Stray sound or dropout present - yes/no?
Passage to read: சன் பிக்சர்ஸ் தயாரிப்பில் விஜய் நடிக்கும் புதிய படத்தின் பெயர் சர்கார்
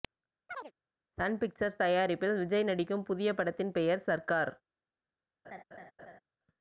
yes